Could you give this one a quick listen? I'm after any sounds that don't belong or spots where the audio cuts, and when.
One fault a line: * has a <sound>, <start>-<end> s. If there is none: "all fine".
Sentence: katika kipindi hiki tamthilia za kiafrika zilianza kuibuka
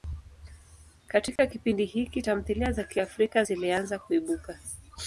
* has a dropout, 1.4-1.4 s